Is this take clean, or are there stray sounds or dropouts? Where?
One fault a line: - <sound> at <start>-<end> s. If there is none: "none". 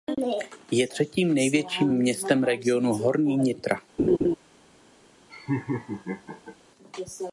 - laugh at 4.0-4.3 s
- laugh at 5.3-6.6 s